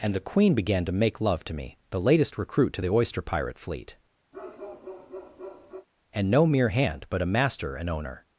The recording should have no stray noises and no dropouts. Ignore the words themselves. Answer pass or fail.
fail